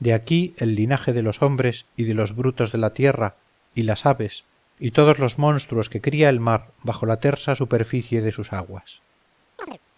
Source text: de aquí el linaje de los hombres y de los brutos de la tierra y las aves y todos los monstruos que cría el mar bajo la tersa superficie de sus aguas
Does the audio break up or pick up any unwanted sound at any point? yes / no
yes